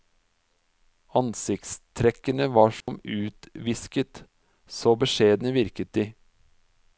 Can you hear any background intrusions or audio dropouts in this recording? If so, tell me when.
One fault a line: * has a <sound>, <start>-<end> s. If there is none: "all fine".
* has a dropout, 2.8-2.9 s